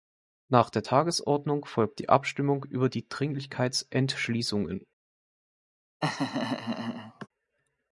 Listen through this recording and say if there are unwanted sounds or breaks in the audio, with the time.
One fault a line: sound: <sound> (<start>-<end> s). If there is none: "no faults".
sound: laugh (6.0-7.3 s)